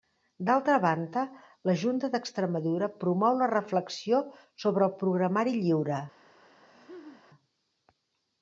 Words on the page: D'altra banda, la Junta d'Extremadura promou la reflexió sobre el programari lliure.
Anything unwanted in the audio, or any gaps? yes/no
yes